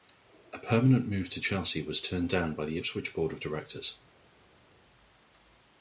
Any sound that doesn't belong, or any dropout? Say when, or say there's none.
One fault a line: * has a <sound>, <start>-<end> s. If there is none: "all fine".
all fine